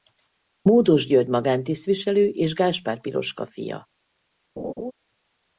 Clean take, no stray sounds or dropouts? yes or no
no